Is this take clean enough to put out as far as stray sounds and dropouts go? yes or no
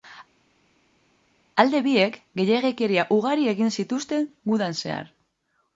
yes